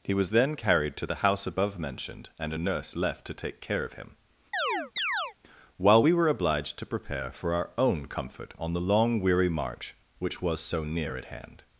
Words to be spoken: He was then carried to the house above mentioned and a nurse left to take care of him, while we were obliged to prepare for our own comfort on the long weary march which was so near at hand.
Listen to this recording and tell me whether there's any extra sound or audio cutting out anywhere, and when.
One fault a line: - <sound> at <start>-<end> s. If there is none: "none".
- chirp at 4.5-5.3 s